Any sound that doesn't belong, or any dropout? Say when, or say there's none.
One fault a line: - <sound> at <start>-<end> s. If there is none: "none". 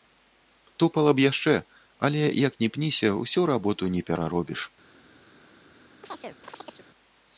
- chirp at 6.0-6.9 s